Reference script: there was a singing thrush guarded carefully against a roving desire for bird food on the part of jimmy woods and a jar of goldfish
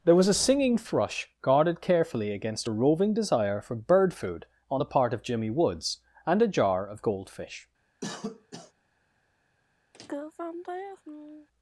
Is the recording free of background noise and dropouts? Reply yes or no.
no